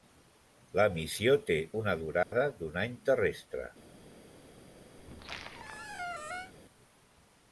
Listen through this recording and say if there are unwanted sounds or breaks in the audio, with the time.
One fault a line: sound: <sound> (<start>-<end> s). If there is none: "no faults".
sound: dropout (2.2-2.3 s)
sound: squeak (5.0-6.5 s)